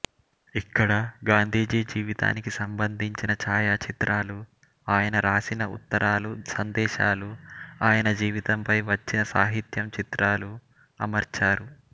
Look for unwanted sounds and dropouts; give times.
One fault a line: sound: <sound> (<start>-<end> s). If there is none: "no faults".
no faults